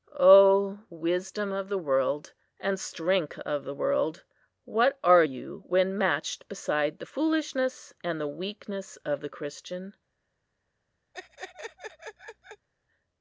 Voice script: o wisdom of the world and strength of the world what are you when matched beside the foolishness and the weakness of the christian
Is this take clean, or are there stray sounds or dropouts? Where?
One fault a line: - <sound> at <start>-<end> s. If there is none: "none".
- laugh at 11.1-12.7 s